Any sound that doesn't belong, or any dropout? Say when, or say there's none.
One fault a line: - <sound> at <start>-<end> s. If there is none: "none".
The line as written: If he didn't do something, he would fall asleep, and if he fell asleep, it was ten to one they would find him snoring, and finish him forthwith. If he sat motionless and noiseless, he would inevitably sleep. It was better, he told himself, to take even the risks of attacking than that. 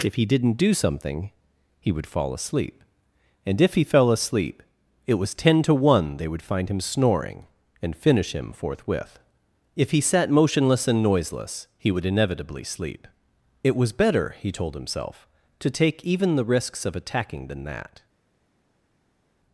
none